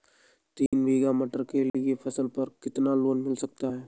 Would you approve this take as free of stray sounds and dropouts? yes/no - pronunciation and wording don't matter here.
no